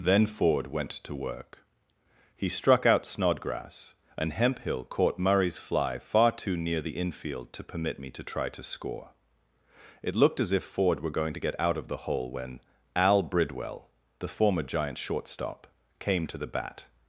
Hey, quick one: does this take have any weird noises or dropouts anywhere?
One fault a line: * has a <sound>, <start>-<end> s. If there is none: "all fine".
all fine